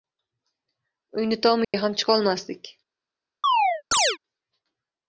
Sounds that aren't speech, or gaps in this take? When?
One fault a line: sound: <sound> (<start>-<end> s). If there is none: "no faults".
sound: dropout (1.6-1.7 s)
sound: chirp (3.4-4.2 s)